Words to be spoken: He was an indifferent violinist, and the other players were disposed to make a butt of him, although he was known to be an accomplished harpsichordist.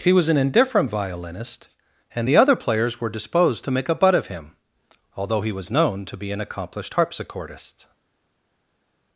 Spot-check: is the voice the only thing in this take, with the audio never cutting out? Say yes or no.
yes